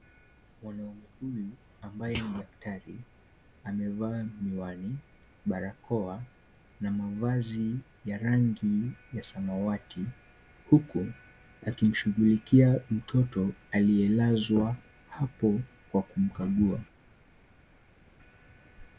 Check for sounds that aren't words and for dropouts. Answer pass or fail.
pass